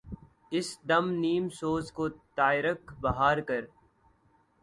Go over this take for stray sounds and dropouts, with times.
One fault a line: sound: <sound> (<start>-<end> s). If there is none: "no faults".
no faults